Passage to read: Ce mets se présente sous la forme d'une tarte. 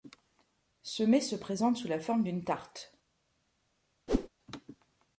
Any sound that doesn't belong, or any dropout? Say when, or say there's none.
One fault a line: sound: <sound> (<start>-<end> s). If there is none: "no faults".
sound: whoosh (4.1-4.3 s)